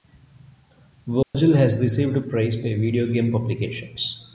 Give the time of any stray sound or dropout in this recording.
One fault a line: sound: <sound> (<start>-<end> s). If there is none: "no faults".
sound: dropout (1.2-1.3 s)